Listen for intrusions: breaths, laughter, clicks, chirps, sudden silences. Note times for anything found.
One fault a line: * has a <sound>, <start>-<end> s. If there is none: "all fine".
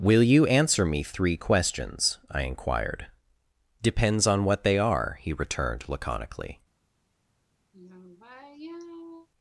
* has a sigh, 7.7-9.3 s